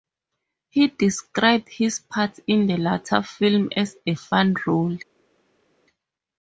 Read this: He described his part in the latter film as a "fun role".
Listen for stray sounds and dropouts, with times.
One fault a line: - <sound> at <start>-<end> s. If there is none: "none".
none